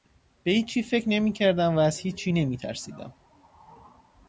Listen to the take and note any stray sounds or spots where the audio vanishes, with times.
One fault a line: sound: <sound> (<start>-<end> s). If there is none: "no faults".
no faults